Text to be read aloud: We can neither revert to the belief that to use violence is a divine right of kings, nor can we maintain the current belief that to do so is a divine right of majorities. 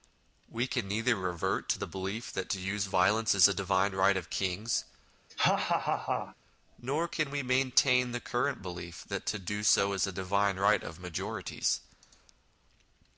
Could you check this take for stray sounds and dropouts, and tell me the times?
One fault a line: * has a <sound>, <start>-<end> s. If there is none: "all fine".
* has a laugh, 5.3-6.4 s